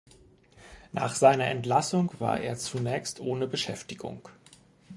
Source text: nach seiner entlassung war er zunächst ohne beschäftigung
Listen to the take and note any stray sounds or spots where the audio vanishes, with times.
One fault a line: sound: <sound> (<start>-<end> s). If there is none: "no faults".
no faults